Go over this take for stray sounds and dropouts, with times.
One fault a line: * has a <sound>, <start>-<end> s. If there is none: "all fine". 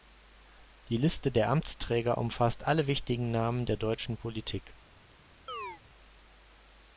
* has a chirp, 5.5-5.8 s